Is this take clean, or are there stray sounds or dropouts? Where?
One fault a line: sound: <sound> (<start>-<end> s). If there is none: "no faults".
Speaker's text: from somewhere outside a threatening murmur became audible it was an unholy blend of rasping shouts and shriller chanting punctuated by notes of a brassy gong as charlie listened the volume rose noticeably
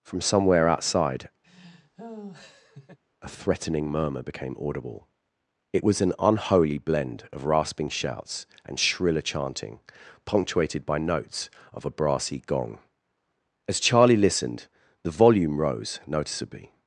sound: laugh (1.4-3.0 s)